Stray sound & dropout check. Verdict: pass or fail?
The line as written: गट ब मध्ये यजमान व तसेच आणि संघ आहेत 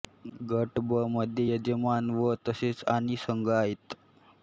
pass